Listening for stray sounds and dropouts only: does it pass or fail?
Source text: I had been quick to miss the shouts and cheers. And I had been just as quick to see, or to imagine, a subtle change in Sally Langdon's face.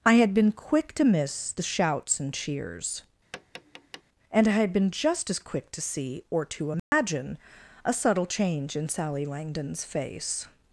fail